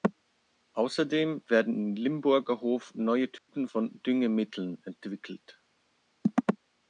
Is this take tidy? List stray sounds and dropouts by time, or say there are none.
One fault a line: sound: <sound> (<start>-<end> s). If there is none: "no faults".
sound: dropout (3.4-3.5 s)